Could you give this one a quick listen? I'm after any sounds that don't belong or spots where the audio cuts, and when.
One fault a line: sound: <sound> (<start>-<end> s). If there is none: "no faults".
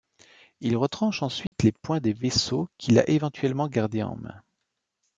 sound: dropout (1.5-1.5 s)